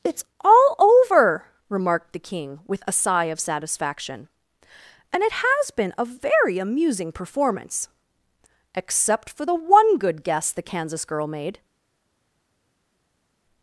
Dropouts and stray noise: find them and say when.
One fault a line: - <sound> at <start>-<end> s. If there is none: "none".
none